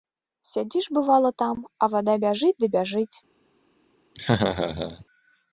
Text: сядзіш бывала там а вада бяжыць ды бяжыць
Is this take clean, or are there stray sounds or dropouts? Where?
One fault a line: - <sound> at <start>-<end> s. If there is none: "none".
- laugh at 4.1-5.0 s